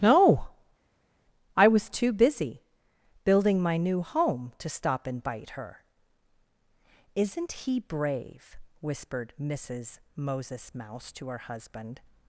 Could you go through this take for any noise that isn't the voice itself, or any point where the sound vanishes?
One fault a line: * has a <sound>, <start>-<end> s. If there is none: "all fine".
all fine